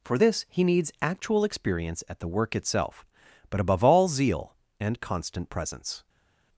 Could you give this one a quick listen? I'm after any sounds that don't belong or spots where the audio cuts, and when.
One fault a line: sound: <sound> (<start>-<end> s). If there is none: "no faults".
no faults